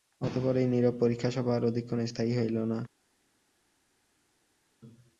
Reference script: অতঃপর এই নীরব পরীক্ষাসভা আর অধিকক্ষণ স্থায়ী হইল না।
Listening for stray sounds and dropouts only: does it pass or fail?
pass